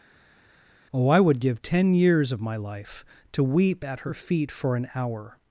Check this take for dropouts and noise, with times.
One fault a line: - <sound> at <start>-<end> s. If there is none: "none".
none